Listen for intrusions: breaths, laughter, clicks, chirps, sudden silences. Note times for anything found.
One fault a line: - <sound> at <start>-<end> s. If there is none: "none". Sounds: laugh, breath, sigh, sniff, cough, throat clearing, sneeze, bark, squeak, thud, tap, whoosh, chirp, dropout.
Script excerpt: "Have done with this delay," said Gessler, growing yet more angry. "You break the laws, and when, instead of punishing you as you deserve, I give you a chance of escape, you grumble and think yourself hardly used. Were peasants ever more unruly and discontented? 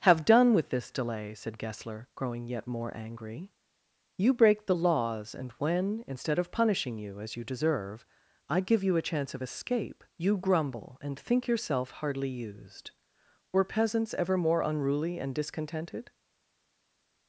none